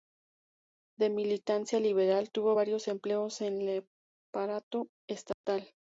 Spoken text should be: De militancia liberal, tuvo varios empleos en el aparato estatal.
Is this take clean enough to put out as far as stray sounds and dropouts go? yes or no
no